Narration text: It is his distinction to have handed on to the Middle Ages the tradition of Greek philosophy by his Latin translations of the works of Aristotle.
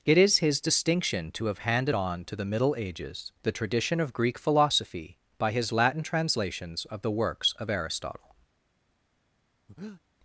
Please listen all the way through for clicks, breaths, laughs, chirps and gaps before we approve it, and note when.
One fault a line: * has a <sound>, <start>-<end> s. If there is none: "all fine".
* has a breath, 9.7-10.0 s